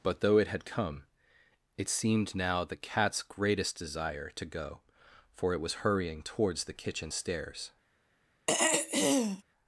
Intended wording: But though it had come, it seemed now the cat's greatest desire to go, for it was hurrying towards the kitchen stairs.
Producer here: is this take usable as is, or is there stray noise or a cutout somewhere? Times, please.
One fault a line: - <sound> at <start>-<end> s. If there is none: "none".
- throat clearing at 8.5-9.4 s